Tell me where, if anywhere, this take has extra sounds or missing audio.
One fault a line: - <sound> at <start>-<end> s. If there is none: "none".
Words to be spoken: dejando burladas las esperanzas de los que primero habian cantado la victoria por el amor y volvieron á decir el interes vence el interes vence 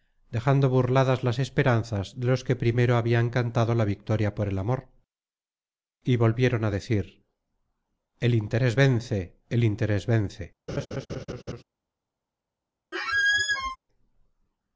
- laugh at 10.7-11.6 s
- squeak at 12.9-13.8 s